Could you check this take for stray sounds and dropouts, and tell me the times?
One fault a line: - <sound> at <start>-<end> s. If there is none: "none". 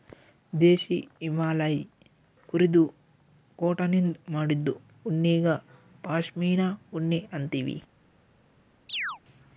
- chirp at 8.9-9.2 s